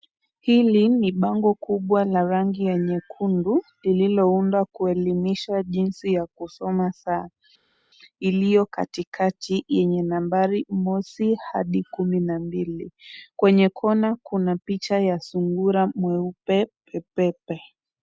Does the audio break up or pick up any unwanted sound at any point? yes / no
no